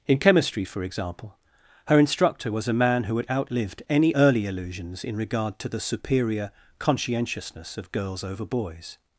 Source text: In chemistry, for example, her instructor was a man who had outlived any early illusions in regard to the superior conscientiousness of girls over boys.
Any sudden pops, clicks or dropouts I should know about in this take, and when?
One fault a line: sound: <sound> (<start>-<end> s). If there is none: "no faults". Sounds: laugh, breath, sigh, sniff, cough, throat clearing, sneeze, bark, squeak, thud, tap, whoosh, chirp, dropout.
no faults